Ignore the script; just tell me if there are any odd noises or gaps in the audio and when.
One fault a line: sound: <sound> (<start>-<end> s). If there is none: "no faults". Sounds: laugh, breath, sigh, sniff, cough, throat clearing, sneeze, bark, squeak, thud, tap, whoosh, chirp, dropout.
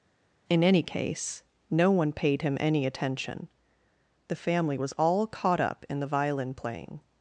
no faults